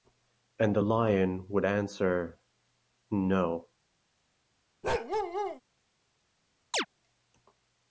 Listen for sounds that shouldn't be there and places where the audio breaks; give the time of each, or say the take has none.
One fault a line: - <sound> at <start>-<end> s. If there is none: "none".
- bark at 4.8-5.6 s
- chirp at 6.7-6.9 s